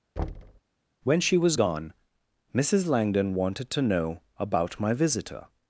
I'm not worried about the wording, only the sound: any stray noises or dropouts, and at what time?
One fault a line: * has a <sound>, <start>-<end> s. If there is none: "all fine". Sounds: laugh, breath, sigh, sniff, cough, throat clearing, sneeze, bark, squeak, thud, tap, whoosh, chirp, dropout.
* has a thud, 0.2-0.6 s